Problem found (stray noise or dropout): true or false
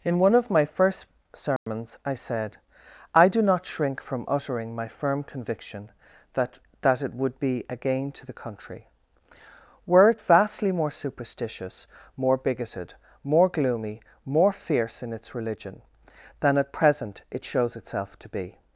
true